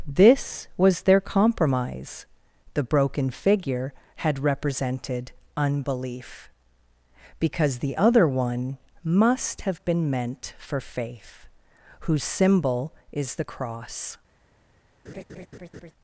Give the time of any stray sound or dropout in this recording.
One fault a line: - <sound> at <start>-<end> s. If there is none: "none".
- laugh at 15.0-15.9 s